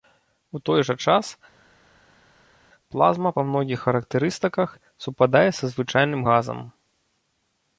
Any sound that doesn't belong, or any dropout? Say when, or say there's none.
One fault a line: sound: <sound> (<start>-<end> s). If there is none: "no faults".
no faults